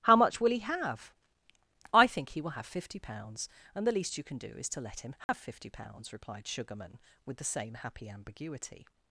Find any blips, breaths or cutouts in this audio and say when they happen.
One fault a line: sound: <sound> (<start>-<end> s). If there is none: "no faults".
sound: dropout (5.2-5.3 s)